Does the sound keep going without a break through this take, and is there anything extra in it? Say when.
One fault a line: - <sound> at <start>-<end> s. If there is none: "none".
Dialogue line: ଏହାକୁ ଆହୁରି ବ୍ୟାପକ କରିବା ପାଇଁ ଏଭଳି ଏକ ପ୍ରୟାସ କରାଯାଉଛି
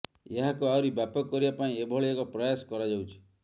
none